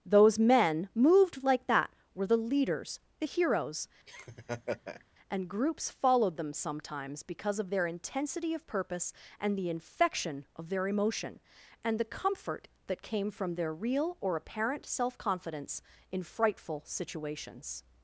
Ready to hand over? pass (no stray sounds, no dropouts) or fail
fail